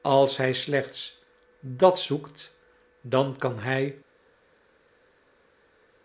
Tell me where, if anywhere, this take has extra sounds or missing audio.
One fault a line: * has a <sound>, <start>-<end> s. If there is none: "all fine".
all fine